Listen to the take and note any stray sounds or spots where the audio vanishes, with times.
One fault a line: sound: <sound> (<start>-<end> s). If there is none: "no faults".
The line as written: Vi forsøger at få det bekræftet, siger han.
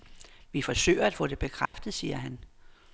sound: dropout (1.7-1.7 s)